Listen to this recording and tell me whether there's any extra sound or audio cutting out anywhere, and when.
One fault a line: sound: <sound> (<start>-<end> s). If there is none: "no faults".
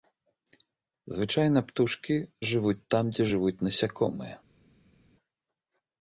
no faults